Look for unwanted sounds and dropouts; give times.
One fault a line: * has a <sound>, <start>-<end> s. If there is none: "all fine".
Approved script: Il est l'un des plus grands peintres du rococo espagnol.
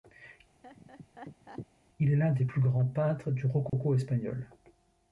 * has a laugh, 0.6-1.7 s
* has a dropout, 3.7-3.7 s